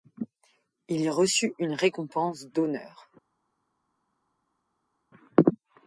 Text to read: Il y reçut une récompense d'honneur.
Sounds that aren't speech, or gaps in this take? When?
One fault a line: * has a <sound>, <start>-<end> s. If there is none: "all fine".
all fine